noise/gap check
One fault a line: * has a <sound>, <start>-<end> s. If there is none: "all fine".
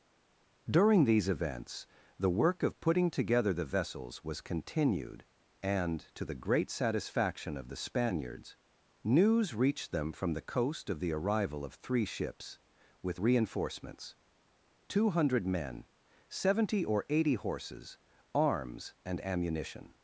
all fine